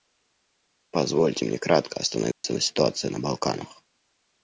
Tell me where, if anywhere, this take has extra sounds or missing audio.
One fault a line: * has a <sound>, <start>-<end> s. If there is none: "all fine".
* has a dropout, 2.3-2.4 s